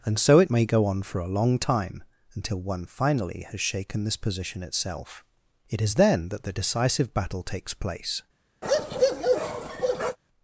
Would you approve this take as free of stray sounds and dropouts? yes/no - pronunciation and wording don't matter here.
no